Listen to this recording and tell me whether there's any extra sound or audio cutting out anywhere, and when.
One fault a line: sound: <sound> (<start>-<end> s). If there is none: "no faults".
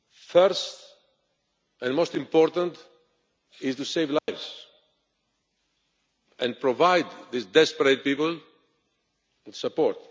sound: dropout (4.2-4.3 s)